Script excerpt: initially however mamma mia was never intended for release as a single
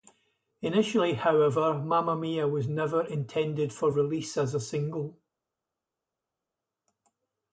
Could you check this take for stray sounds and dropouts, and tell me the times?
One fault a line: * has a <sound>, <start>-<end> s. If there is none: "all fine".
all fine